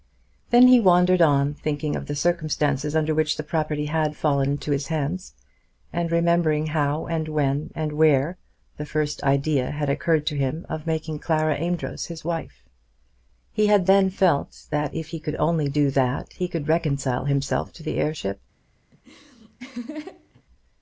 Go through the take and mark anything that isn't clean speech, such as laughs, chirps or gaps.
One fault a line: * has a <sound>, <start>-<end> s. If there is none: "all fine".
* has a laugh, 18.9-20.4 s